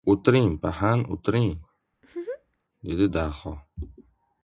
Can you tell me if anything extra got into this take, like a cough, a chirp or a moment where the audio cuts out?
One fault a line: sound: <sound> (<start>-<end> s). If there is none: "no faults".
sound: laugh (1.9-2.6 s)